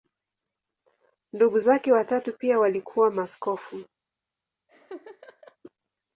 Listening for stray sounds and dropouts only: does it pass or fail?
fail